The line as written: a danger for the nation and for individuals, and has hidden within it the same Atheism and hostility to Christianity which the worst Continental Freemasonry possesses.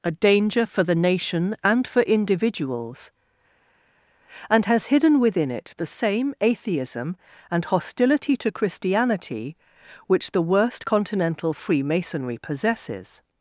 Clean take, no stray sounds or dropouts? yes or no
yes